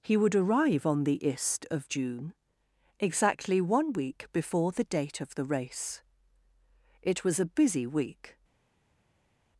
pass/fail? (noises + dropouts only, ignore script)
pass